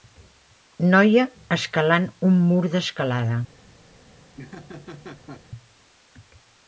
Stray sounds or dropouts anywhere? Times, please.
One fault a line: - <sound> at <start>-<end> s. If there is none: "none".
- laugh at 4.4-5.4 s